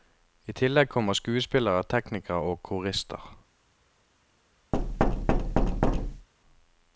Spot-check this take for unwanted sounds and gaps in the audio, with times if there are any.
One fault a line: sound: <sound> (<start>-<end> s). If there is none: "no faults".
sound: thud (4.7-6.3 s)